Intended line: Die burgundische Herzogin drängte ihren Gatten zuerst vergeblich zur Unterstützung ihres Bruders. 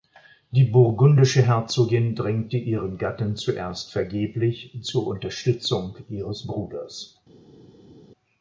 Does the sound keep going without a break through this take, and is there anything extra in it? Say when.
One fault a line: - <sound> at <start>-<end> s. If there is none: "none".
none